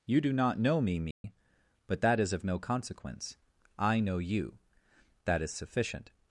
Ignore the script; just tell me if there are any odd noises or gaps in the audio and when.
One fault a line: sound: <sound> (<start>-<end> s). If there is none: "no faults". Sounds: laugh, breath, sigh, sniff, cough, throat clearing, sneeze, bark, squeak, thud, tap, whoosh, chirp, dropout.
sound: dropout (1.1-1.2 s)